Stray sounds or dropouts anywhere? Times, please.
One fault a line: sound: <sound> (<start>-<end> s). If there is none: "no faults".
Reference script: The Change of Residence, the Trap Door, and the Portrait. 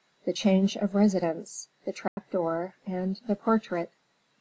sound: dropout (2.1-2.2 s)